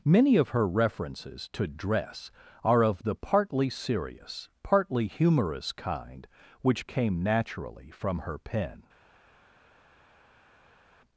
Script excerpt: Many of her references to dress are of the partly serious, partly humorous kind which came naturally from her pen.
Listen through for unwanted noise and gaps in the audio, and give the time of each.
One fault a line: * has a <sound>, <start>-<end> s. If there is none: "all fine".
all fine